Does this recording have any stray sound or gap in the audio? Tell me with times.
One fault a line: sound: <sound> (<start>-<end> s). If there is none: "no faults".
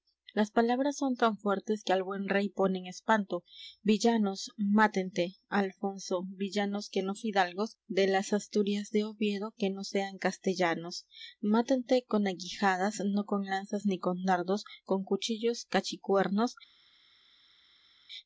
no faults